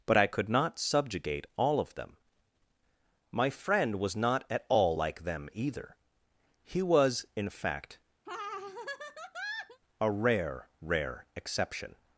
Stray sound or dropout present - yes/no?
yes